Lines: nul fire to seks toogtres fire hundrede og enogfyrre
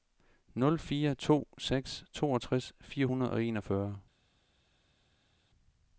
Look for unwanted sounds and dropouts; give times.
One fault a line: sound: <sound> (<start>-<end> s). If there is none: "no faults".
no faults